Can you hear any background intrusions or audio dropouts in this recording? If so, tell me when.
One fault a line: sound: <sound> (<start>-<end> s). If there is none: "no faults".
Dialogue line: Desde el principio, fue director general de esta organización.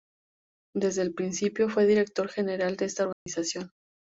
sound: dropout (3.1-3.3 s)